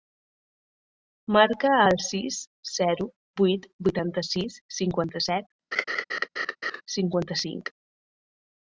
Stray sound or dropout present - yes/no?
yes